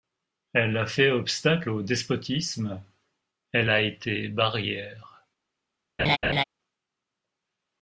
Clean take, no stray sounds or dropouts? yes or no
no